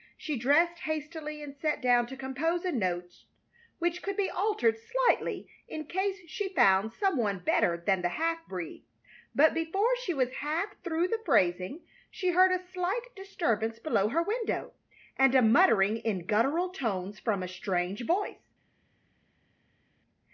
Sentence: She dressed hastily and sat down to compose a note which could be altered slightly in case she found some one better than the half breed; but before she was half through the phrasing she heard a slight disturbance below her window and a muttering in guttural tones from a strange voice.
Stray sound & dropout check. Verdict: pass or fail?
pass